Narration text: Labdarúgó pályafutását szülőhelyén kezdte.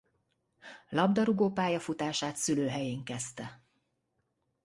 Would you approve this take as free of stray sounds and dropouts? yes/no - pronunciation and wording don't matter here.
yes